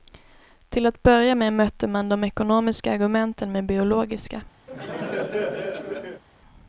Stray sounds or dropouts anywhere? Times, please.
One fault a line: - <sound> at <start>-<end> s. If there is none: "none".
- laugh at 4.7-6.2 s